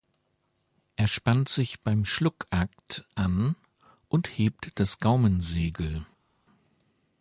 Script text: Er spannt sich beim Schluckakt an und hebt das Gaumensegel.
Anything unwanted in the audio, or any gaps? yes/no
no